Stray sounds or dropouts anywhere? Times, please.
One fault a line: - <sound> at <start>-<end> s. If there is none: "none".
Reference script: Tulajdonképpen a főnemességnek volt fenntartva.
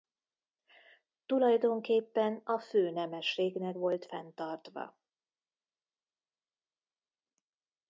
none